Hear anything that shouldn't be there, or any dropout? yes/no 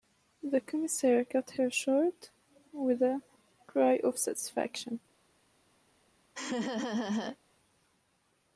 yes